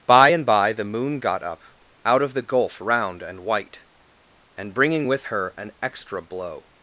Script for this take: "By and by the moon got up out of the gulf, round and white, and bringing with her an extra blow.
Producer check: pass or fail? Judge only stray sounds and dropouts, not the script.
pass